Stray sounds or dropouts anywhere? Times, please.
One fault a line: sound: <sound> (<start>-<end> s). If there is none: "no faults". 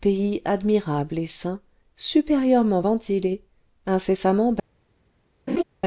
sound: laugh (5.5-5.6 s)